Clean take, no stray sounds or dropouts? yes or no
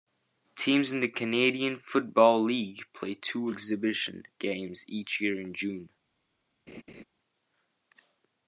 no